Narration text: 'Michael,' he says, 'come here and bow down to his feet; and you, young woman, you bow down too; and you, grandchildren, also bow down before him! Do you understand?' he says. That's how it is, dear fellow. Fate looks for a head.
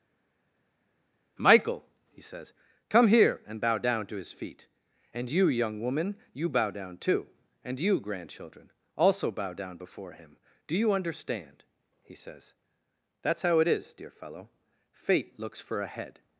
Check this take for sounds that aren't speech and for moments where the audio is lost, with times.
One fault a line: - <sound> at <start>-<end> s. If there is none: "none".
none